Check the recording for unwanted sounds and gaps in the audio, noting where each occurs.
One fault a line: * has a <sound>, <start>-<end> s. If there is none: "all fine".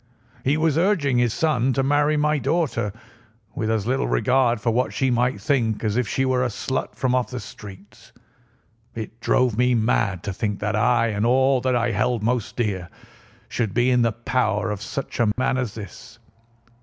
* has a dropout, 15.3-15.4 s